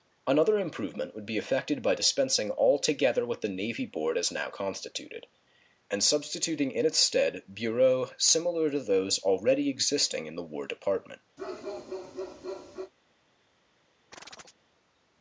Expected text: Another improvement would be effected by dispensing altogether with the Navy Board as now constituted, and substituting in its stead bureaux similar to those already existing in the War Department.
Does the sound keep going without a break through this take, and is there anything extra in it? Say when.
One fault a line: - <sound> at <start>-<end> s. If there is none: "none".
- bark at 11.4-12.9 s
- chirp at 14.1-14.6 s